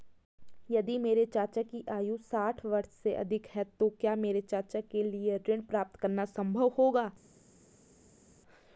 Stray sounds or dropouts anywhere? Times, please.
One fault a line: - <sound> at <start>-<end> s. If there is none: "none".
none